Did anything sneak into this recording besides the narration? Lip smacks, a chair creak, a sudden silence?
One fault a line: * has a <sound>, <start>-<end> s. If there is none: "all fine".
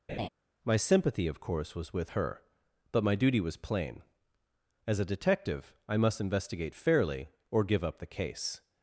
* has a laugh, 0.1-0.3 s